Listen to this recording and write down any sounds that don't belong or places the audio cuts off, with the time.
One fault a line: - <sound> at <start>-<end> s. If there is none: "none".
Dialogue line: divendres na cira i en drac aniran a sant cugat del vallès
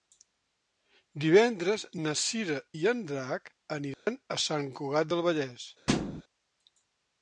- dropout at 3.9-4.1 s
- thud at 5.9-6.2 s